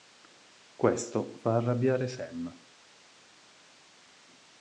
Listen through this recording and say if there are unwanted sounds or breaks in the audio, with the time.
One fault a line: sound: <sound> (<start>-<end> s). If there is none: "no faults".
no faults